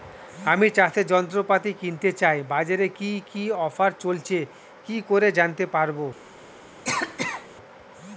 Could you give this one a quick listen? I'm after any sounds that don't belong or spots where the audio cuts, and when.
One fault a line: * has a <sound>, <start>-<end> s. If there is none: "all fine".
* has a cough, 6.8-7.5 s